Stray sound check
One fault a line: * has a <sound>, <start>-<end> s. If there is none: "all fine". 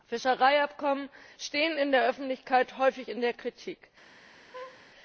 * has a laugh, 4.5-4.9 s